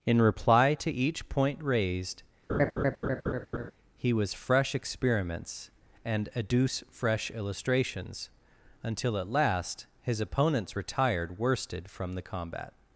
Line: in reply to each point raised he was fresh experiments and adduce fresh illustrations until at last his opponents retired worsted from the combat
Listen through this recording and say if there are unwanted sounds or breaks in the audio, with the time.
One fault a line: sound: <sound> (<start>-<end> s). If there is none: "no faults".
sound: laugh (2.5-3.7 s)